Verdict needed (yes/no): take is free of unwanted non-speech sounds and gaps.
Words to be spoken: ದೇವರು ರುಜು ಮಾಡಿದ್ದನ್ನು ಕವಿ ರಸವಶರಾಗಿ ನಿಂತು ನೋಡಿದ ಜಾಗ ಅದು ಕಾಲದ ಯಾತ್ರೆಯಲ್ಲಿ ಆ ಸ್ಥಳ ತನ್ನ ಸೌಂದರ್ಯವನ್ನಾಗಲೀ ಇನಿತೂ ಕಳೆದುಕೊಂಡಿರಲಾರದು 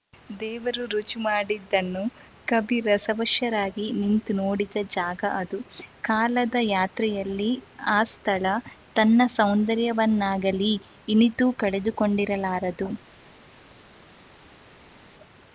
yes